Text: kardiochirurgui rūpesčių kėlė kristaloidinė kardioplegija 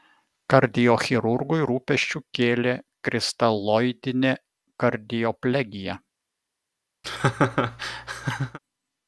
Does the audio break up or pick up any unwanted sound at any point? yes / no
yes